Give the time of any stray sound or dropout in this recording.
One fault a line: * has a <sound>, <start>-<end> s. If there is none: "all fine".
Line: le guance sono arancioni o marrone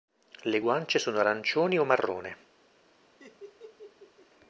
* has a laugh, 3.2-4.3 s